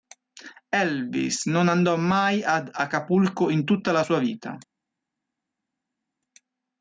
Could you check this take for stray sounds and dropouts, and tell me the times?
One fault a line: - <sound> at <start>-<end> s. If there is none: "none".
none